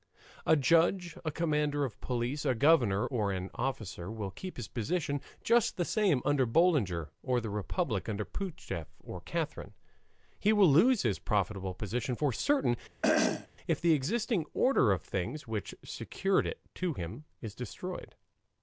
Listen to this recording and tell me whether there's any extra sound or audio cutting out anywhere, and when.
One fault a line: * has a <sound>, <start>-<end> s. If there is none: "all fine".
* has a throat clearing, 13.0-13.5 s